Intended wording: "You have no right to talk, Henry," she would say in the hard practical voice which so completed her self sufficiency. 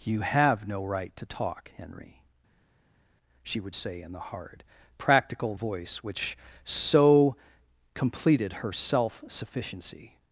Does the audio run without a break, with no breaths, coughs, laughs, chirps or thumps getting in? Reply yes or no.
yes